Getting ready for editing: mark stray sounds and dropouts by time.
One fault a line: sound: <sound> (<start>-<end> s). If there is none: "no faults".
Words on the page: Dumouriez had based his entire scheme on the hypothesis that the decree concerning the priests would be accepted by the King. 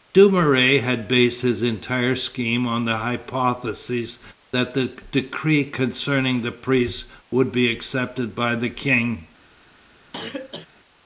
sound: cough (10.1-10.7 s)